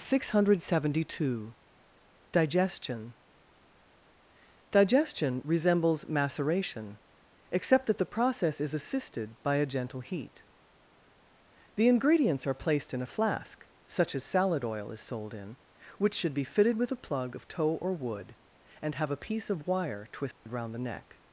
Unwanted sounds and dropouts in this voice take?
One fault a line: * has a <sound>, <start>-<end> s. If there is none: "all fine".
* has a dropout, 20.3-20.5 s